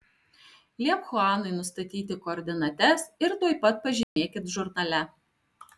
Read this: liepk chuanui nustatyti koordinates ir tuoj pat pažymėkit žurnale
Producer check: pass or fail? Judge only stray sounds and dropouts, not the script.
fail